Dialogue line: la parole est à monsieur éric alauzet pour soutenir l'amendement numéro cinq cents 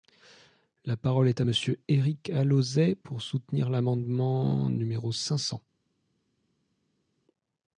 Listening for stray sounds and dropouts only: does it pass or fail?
pass